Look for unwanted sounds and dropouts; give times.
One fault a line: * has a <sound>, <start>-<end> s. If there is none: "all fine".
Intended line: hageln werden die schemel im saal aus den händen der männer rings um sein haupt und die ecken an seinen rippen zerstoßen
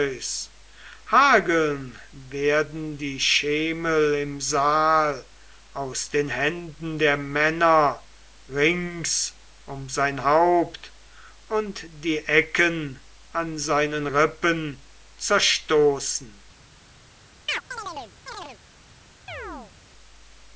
* has a chirp, 17.5-18.6 s
* has a chirp, 19.3-19.7 s